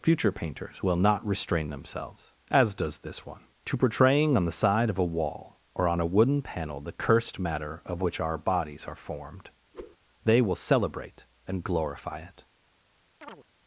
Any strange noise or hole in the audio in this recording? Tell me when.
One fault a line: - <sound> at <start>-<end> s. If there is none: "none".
- whoosh at 9.7-10.0 s
- chirp at 13.2-13.4 s